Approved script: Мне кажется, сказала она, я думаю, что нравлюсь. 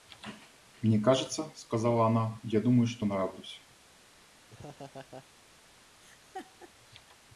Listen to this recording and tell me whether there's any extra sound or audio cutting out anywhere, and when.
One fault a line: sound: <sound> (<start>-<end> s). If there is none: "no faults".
sound: laugh (4.5-5.3 s)
sound: laugh (6.0-6.7 s)